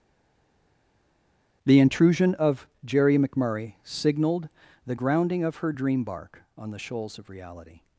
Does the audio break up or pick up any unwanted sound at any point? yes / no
no